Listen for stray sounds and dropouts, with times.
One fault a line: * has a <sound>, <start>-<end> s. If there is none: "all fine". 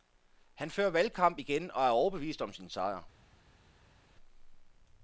all fine